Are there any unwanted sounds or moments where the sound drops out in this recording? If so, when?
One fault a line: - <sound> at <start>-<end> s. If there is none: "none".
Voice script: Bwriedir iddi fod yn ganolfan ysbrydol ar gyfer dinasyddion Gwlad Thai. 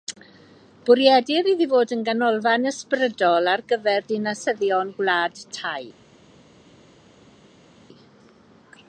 none